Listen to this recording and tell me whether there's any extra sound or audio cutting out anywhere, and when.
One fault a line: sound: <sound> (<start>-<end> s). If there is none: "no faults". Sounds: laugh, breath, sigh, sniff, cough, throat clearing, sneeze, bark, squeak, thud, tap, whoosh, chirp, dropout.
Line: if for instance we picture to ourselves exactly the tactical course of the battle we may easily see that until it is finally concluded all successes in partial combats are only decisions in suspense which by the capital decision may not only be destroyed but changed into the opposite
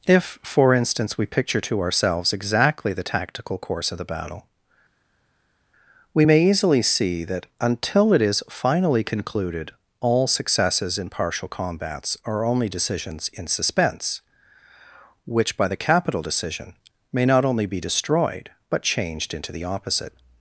no faults